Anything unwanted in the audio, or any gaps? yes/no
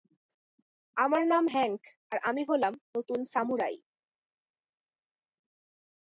no